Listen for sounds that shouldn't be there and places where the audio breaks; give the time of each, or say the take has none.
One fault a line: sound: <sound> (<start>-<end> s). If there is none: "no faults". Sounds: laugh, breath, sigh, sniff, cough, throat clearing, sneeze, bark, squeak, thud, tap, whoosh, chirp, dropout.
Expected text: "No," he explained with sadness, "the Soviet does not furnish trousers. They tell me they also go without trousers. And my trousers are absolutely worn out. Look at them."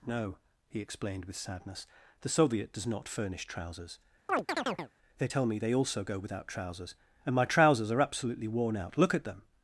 sound: chirp (4.3-4.9 s)